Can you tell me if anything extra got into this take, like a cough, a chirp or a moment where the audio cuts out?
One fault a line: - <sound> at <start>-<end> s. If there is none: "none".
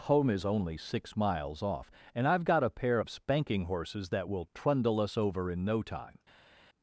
none